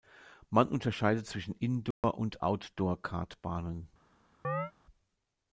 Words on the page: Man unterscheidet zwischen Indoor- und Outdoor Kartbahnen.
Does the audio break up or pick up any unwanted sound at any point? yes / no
yes